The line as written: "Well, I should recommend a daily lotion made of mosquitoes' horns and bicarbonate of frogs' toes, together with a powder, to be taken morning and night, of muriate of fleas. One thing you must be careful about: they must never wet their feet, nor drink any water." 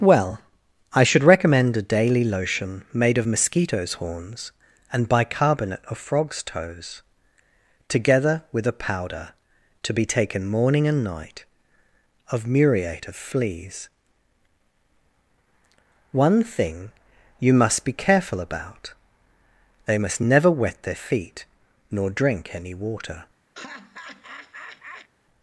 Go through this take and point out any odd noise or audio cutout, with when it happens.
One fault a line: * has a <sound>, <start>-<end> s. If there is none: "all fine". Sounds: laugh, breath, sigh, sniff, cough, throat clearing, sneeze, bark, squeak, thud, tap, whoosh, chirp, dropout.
* has a laugh, 23.5-25.1 s